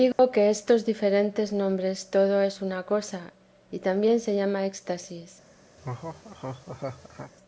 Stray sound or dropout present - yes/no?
yes